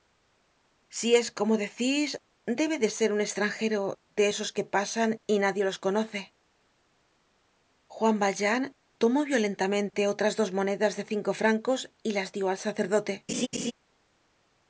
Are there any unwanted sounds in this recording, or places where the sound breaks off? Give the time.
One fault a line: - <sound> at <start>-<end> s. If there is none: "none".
- laugh at 13.3-13.7 s